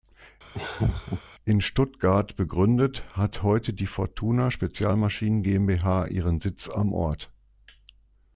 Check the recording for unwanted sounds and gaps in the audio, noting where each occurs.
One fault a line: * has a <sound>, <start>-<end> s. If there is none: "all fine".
* has a laugh, 0.5-1.2 s